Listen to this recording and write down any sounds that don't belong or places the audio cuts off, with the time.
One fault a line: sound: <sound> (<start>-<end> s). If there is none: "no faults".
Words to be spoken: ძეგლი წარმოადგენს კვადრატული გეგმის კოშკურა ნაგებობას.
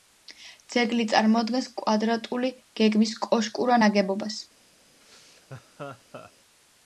sound: laugh (5.0-6.3 s)